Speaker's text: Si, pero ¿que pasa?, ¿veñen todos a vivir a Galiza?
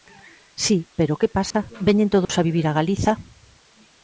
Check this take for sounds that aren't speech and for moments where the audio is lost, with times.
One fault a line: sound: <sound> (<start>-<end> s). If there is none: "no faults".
sound: dropout (1.5-1.5 s)
sound: dropout (2.2-2.3 s)